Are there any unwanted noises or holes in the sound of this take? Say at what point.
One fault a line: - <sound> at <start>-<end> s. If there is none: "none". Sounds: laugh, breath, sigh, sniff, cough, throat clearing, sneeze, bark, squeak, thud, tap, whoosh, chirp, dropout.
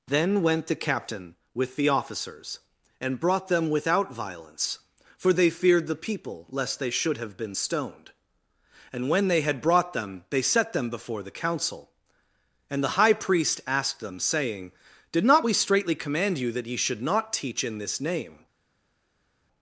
none